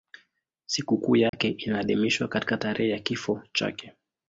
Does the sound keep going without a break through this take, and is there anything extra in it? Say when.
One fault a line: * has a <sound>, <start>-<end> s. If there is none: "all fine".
* has a dropout, 1.3-1.3 s